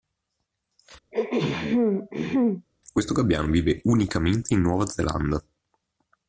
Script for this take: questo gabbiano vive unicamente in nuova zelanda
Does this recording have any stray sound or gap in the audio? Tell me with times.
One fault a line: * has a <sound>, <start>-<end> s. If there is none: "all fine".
* has a throat clearing, 1.1-2.7 s